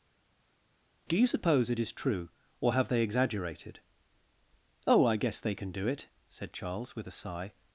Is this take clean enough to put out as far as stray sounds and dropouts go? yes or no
yes